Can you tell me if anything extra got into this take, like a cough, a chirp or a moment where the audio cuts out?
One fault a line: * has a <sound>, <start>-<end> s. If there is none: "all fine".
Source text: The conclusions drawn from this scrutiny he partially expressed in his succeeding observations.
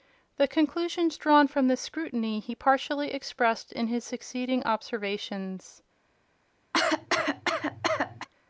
* has a cough, 6.7-8.3 s